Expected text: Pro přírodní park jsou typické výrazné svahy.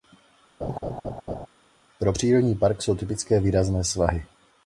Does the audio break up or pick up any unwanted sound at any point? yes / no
yes